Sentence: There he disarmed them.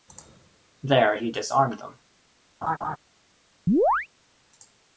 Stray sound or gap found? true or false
true